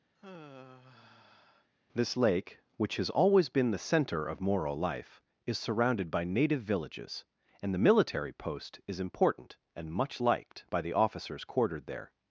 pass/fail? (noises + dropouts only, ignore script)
fail